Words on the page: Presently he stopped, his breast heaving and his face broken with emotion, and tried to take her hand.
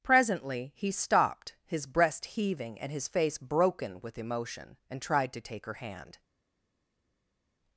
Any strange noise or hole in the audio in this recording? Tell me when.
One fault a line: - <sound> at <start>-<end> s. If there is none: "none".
none